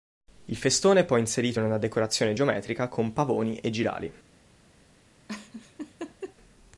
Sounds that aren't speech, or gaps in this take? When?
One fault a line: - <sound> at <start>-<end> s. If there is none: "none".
- laugh at 5.3-6.4 s